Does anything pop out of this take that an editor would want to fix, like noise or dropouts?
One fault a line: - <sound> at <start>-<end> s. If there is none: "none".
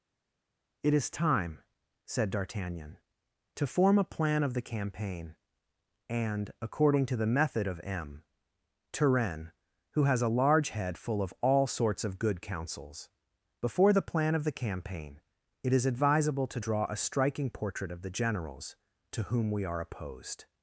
none